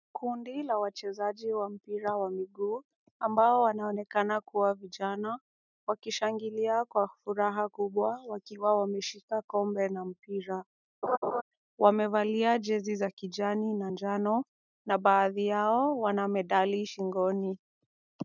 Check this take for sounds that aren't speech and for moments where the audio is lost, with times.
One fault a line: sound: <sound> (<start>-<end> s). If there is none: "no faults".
sound: laugh (11.0-11.4 s)